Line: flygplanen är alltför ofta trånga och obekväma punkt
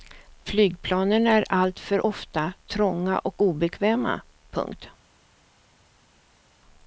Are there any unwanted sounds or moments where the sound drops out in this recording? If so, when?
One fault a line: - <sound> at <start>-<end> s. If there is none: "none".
none